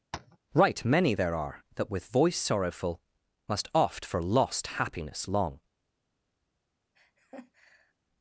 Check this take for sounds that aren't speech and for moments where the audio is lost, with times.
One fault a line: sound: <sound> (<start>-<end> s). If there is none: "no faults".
sound: tap (0.1-0.4 s)
sound: laugh (6.9-7.9 s)